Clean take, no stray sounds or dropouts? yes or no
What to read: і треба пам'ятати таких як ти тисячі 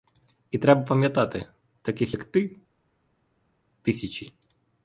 yes